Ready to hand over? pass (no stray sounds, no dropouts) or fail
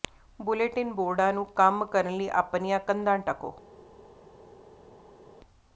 pass